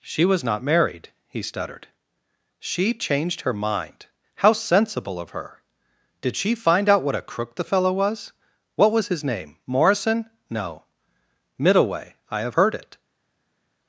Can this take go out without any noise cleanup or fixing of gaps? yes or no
yes